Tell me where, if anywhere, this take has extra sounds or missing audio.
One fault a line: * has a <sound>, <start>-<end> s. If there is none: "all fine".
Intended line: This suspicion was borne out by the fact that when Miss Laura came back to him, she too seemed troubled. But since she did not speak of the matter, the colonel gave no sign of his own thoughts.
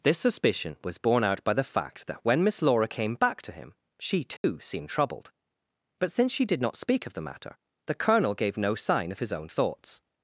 * has a dropout, 4.4-4.4 s